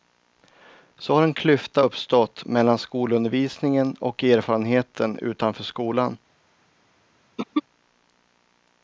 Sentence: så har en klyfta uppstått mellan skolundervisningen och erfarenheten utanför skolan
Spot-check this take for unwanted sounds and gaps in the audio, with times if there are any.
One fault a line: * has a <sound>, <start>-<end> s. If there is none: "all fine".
* has a throat clearing, 7.4-7.6 s